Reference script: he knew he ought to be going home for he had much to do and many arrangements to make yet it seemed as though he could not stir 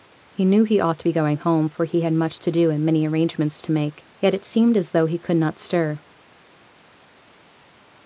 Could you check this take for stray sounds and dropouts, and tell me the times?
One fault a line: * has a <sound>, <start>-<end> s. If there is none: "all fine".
all fine